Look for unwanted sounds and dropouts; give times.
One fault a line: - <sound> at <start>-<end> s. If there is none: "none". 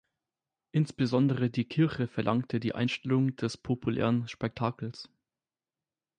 none